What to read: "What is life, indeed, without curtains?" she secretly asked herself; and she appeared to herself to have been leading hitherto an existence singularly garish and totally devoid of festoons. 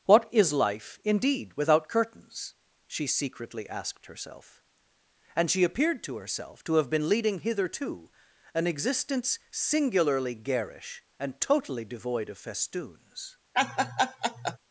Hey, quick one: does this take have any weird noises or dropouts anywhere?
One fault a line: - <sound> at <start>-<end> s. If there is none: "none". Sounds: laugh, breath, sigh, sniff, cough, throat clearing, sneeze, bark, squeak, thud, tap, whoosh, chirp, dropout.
- laugh at 13.5-14.6 s